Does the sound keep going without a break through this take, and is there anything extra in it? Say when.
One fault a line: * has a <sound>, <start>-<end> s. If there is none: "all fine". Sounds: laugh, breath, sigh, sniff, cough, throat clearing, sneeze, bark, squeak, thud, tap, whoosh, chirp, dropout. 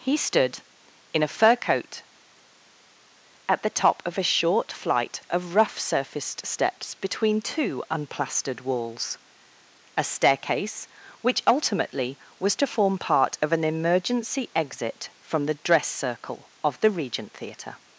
all fine